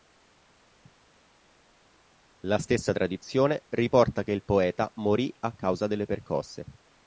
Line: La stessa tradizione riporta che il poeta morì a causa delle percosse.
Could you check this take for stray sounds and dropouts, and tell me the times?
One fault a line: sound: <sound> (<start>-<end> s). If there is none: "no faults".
no faults